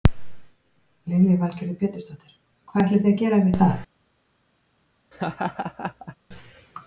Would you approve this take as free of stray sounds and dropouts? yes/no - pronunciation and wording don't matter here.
no